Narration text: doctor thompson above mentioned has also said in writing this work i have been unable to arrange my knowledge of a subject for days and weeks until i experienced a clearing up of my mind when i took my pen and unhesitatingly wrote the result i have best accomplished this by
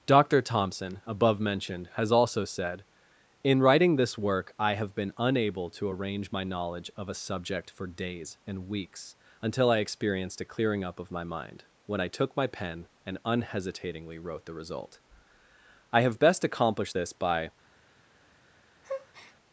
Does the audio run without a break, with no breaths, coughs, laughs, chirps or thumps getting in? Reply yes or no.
no